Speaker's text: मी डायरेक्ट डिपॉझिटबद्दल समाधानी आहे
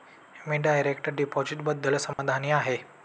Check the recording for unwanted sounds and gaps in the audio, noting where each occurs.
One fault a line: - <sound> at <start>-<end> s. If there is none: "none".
- dropout at 2.1-2.2 s